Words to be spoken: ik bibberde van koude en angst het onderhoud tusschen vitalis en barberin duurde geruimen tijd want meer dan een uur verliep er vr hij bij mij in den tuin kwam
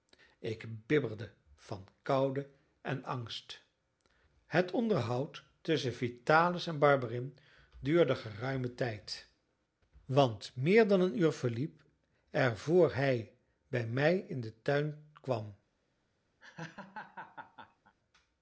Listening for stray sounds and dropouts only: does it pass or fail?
fail